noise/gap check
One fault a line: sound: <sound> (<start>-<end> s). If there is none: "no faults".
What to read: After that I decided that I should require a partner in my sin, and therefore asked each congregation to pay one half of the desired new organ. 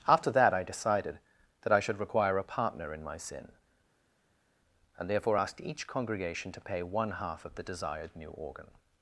no faults